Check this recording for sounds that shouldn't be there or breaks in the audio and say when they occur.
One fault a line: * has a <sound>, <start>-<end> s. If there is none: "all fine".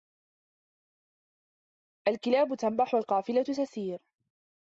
all fine